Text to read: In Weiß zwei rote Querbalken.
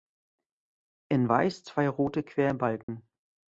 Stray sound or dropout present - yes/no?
yes